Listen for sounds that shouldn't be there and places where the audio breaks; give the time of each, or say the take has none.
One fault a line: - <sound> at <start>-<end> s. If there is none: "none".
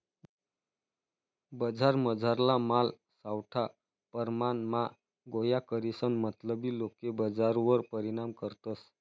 none